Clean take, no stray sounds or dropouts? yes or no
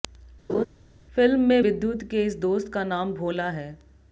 no